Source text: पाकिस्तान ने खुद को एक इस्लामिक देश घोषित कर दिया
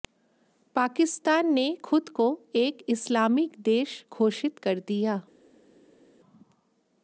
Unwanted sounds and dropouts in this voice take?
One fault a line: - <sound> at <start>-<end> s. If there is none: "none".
none